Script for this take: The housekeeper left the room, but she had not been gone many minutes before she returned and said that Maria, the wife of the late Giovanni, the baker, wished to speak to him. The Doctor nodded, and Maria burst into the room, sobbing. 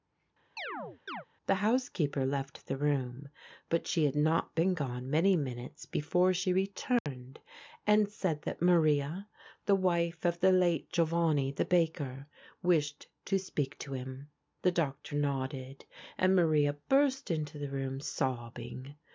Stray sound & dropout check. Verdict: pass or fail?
fail